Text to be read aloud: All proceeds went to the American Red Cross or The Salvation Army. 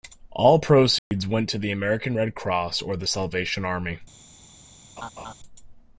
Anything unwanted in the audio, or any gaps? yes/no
yes